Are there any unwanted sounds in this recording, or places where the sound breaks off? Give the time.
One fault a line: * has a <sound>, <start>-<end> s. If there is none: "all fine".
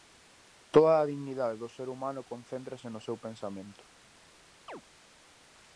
* has a chirp, 4.7-4.8 s